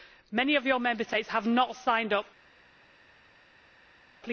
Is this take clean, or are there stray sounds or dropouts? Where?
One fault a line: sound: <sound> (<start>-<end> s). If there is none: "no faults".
no faults